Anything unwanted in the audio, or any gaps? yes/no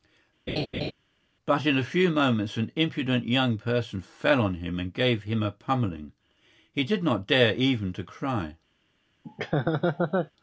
yes